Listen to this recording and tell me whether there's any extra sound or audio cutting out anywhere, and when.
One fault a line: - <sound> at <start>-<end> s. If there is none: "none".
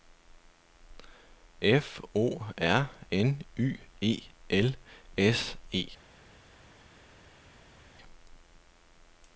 none